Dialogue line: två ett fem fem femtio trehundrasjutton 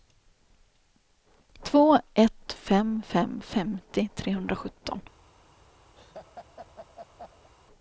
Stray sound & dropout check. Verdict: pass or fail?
fail